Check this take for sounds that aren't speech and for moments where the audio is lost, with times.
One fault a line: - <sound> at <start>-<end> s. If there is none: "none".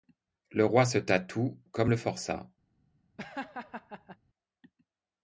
- laugh at 3.2-4.2 s